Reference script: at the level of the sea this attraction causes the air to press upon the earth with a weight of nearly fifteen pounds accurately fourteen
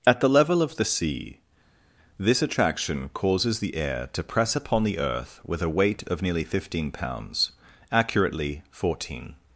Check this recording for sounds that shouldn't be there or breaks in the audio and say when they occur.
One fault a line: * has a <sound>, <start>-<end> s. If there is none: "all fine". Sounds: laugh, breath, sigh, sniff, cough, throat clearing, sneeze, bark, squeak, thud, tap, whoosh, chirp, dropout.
all fine